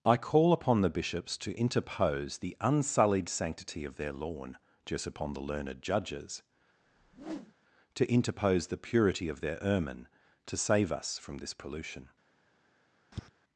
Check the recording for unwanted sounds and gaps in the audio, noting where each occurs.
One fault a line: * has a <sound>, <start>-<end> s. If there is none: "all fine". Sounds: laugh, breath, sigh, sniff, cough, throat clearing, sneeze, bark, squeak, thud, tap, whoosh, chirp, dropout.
* has a whoosh, 6.8-7.5 s
* has a tap, 13.1-13.3 s